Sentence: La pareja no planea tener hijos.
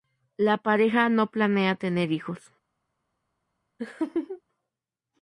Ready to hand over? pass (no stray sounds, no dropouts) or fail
fail